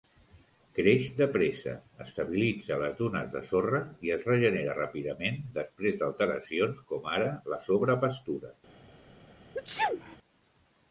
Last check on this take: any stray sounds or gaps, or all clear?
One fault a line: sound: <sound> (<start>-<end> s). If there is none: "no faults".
sound: sneeze (9.5-10.2 s)